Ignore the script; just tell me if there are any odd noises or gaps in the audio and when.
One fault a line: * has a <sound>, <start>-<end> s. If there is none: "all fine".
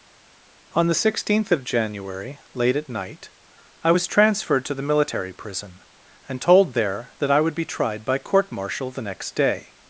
all fine